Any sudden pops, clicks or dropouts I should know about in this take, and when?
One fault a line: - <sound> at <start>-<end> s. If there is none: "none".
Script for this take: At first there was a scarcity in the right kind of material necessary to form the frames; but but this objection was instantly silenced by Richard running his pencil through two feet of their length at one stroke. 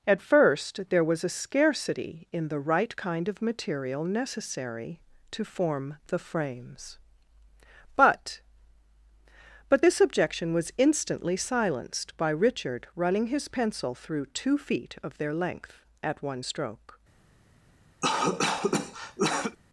- cough at 18.0-19.6 s